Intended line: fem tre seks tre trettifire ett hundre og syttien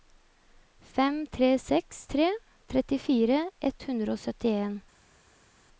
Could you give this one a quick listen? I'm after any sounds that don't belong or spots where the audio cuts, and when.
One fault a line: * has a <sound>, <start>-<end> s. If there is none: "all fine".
all fine